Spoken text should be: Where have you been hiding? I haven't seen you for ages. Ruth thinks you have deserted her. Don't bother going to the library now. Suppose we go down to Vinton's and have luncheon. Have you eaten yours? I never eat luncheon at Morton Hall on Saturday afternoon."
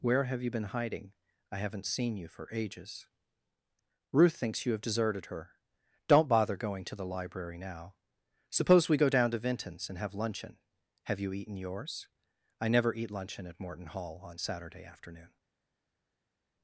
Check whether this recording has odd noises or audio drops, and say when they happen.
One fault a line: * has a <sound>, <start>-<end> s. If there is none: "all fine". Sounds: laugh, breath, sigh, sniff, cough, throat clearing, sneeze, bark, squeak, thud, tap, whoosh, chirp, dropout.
all fine